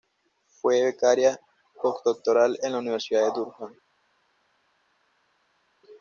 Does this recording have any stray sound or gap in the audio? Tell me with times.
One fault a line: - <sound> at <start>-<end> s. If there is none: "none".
none